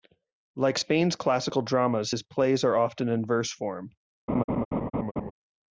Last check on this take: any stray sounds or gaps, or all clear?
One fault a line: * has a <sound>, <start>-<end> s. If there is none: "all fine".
* has a laugh, 4.3-5.3 s